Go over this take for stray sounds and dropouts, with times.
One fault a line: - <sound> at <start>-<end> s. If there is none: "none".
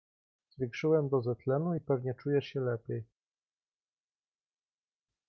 none